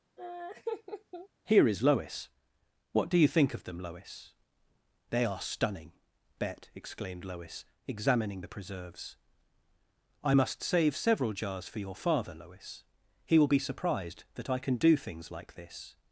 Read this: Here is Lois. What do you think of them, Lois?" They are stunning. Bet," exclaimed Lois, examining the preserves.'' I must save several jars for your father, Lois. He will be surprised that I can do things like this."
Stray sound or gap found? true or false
true